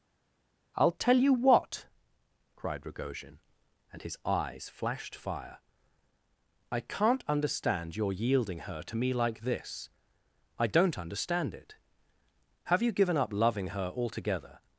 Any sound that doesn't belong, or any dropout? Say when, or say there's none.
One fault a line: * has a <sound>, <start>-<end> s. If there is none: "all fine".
all fine